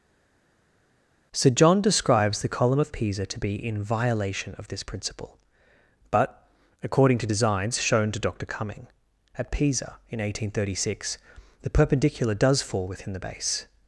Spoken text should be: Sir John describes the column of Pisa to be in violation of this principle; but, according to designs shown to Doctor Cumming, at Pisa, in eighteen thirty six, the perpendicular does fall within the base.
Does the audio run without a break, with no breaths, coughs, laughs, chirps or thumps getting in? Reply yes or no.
yes